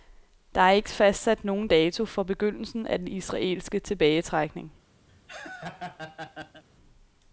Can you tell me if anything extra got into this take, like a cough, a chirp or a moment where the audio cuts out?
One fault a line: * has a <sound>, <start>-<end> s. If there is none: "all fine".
* has a laugh, 5.1-6.6 s